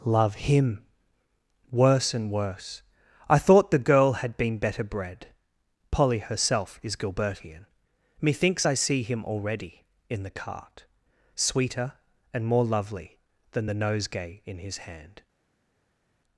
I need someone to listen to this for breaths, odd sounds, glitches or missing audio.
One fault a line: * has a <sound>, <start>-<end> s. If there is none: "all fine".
all fine